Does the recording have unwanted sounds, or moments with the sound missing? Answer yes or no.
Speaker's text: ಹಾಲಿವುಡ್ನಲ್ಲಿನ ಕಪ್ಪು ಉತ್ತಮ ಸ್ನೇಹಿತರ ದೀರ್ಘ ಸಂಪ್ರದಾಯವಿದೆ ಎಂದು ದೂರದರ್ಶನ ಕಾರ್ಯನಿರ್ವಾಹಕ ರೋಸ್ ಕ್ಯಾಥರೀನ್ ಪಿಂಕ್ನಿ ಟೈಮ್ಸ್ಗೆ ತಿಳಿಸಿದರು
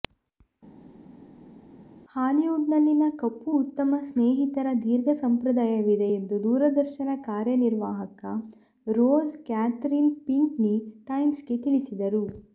no